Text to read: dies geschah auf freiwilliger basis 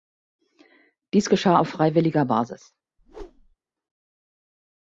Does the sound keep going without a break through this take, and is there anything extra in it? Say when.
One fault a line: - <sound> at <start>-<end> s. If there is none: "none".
- whoosh at 3.0-3.6 s